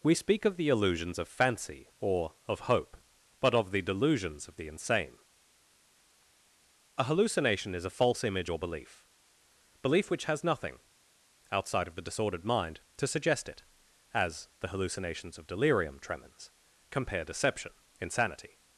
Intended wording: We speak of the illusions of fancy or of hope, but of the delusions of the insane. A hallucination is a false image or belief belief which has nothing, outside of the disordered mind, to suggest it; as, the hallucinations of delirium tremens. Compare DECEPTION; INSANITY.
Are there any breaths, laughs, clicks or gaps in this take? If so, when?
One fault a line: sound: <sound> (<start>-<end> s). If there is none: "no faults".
no faults